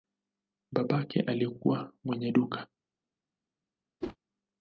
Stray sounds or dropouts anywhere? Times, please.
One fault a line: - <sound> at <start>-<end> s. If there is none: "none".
- whoosh at 4.0-4.2 s